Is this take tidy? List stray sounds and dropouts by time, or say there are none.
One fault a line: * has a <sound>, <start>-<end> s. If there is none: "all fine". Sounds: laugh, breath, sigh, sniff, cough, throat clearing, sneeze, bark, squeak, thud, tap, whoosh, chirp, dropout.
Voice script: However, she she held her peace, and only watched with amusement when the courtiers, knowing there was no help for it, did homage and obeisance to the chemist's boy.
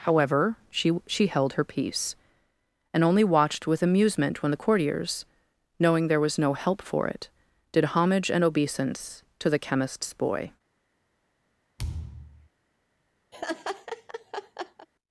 * has a thud, 11.8-12.5 s
* has a laugh, 13.3-14.9 s